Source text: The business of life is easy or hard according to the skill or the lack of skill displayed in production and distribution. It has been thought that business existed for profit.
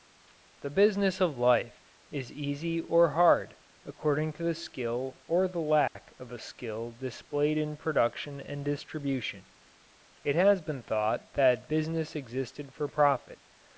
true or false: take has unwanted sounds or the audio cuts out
true